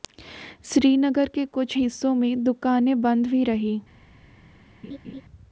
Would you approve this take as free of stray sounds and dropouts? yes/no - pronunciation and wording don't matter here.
no